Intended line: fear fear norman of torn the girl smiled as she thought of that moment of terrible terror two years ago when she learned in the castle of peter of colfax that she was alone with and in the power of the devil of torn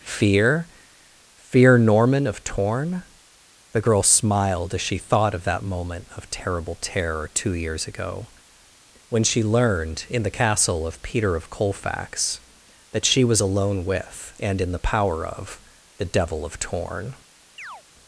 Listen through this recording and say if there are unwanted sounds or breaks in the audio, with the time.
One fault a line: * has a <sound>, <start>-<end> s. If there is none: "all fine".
* has a chirp, 17.6-17.8 s